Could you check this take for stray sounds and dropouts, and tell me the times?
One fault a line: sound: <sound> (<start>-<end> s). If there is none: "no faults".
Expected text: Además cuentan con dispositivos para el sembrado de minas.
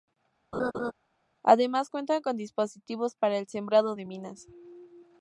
sound: laugh (0.5-0.9 s)